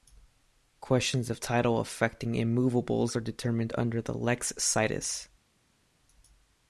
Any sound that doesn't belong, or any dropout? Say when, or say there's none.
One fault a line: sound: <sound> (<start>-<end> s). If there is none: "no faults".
no faults